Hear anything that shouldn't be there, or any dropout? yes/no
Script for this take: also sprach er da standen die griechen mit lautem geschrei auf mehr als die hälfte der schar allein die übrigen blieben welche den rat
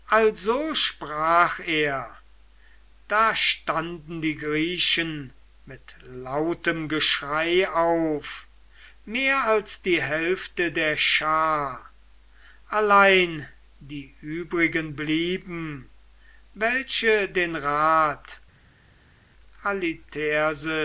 no